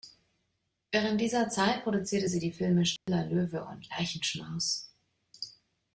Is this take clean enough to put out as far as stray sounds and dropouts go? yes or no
no